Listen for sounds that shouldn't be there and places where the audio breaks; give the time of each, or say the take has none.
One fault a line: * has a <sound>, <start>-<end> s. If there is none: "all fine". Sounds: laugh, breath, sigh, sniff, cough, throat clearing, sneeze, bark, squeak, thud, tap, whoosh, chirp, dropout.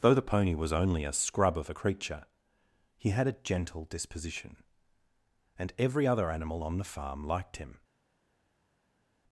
all fine